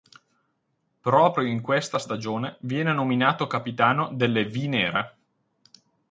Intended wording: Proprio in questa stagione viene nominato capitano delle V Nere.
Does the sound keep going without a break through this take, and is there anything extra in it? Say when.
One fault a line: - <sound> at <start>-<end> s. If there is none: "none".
none